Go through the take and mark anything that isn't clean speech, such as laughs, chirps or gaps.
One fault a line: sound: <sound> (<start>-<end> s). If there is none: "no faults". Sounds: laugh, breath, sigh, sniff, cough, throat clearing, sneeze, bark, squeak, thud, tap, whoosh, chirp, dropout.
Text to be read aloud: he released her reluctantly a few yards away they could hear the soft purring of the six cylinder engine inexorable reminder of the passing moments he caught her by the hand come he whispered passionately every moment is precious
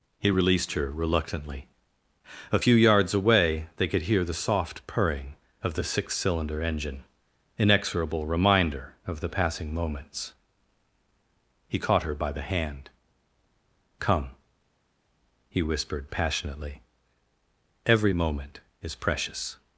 no faults